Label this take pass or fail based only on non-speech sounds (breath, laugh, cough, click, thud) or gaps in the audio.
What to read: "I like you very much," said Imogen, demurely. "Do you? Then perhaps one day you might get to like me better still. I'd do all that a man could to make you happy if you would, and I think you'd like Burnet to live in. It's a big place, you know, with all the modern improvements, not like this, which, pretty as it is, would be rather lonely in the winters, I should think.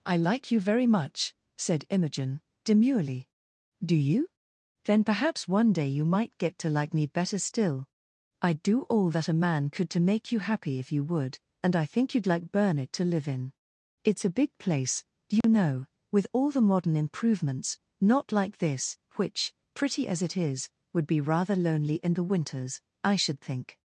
fail